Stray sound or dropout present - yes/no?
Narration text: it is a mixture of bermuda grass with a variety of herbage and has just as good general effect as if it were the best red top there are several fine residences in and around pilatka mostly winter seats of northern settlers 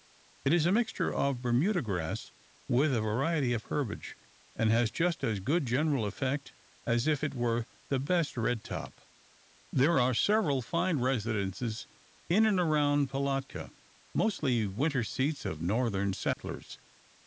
yes